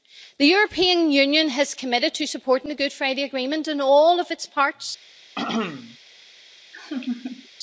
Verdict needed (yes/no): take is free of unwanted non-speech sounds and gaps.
no